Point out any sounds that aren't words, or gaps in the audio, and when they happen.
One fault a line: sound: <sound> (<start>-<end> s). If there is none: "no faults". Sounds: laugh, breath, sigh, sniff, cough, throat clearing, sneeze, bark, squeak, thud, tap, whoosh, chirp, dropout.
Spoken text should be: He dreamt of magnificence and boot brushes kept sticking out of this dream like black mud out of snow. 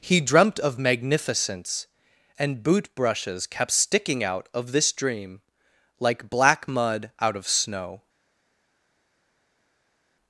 no faults